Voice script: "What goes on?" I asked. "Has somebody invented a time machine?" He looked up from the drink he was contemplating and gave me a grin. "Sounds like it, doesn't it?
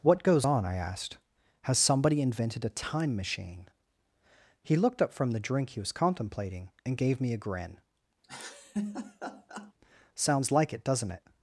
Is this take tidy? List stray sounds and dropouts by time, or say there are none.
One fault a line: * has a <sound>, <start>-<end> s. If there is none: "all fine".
* has a laugh, 8.2-9.7 s